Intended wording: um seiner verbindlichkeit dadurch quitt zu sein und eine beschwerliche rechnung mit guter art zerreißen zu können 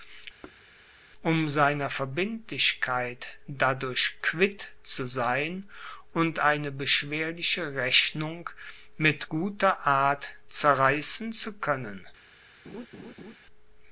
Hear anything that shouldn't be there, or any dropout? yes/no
yes